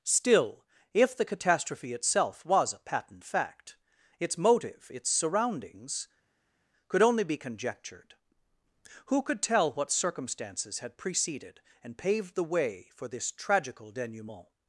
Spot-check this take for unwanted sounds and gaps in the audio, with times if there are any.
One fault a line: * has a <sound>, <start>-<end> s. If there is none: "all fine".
all fine